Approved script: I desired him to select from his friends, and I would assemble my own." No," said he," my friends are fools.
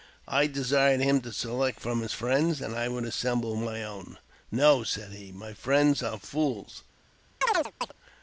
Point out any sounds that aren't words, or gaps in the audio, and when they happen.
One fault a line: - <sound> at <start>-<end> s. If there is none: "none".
- chirp at 7.4-7.9 s